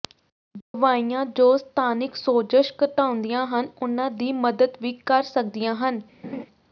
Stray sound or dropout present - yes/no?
yes